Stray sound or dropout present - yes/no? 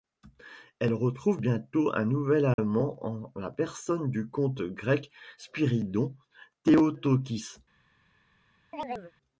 yes